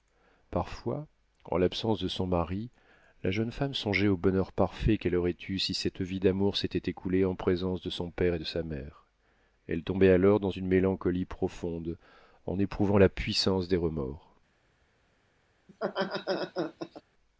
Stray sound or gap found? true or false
true